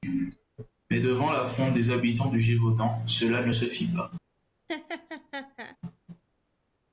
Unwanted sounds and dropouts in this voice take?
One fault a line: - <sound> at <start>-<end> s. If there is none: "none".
- laugh at 4.7-5.8 s